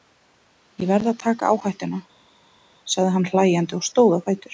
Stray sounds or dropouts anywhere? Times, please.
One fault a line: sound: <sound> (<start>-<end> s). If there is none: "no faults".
no faults